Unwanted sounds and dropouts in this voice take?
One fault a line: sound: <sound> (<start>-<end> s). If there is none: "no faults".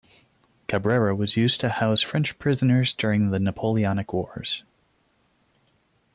no faults